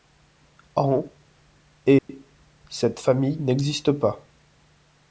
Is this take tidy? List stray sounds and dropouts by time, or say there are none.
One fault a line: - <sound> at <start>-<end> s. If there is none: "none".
- dropout at 2.0-2.1 s